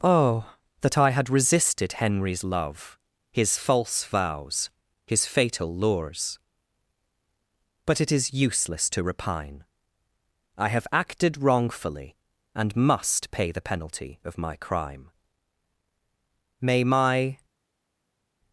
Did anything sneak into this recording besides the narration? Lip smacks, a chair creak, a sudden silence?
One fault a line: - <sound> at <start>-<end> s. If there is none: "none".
none